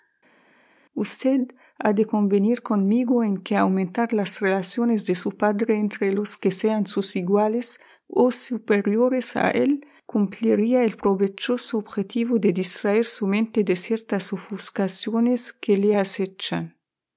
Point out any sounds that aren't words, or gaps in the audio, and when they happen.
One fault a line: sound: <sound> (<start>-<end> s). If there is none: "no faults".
no faults